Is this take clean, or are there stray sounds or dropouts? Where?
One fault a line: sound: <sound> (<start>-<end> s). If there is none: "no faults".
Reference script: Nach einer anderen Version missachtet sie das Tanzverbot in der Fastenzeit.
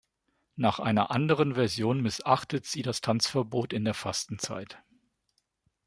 no faults